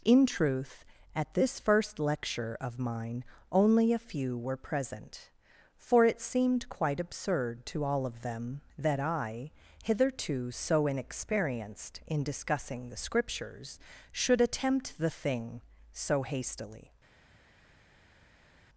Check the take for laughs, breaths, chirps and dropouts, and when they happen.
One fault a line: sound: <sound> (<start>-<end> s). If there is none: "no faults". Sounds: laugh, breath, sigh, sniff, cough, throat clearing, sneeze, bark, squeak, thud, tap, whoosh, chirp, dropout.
no faults